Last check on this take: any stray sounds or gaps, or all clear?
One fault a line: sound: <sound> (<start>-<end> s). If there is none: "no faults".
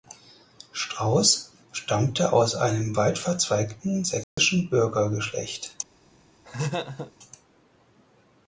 sound: dropout (4.2-4.4 s)
sound: laugh (6.4-7.1 s)